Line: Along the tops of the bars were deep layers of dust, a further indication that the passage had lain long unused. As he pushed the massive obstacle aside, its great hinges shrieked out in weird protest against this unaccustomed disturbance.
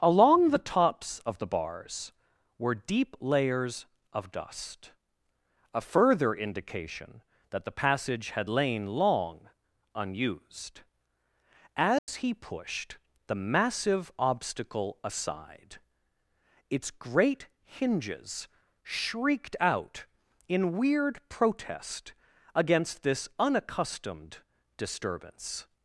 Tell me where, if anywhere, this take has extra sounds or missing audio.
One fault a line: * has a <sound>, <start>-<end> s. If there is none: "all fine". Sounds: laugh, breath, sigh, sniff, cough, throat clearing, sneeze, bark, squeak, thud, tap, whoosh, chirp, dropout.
* has a dropout, 12.0-12.1 s